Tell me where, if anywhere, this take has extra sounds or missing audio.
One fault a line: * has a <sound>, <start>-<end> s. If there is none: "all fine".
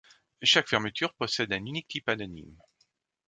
all fine